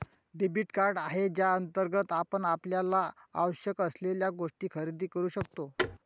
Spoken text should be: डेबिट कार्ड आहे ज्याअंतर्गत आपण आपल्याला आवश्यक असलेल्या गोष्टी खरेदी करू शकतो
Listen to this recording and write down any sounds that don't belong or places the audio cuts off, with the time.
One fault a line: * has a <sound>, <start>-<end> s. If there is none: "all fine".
* has a thud, 5.8-6.0 s